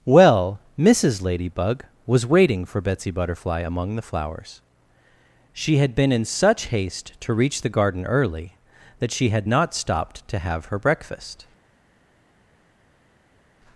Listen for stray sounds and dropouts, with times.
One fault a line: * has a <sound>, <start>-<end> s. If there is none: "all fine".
all fine